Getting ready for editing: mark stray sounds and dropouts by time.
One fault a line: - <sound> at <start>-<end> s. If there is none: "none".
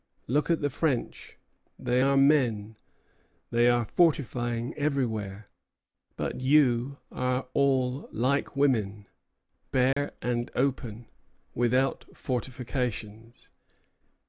- dropout at 9.9-10.0 s